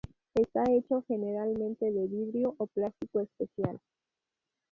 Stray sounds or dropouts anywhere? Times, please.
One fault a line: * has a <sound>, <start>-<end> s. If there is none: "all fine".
all fine